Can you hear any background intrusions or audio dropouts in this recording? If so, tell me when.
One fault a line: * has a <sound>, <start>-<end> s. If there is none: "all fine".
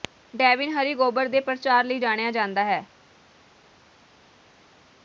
all fine